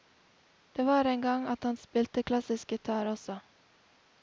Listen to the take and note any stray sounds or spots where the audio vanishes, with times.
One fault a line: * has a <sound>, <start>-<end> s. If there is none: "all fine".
all fine